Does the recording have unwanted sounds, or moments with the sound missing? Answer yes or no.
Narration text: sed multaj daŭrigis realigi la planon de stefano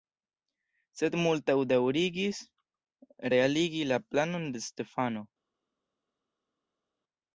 no